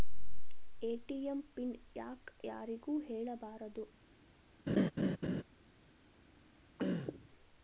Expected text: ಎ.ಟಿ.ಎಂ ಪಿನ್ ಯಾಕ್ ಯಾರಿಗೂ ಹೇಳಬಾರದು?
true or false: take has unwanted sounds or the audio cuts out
true